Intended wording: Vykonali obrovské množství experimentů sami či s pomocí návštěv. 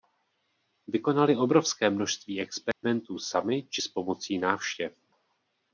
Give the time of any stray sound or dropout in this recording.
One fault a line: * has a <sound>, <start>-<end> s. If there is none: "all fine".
* has a dropout, 2.7-2.8 s